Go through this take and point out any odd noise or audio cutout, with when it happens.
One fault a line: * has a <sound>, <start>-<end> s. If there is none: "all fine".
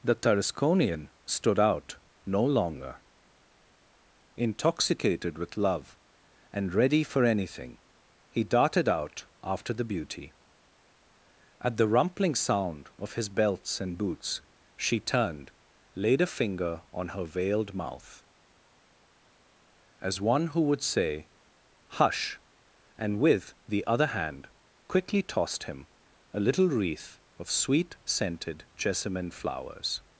all fine